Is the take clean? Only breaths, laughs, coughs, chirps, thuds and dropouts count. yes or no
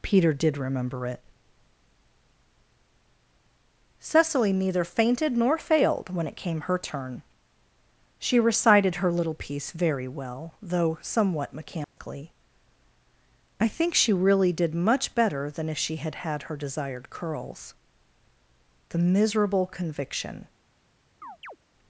no